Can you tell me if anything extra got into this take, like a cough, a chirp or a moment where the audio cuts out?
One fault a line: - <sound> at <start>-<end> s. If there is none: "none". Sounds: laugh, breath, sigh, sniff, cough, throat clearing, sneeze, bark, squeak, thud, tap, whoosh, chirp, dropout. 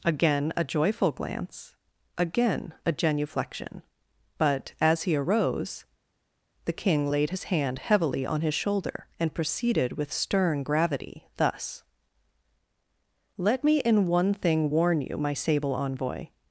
none